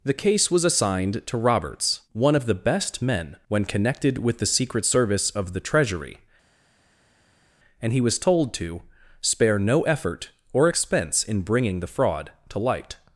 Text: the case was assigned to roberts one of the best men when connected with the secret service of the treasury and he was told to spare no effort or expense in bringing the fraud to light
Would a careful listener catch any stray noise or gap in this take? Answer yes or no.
no